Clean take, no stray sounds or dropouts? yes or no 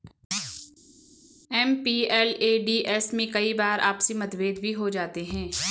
yes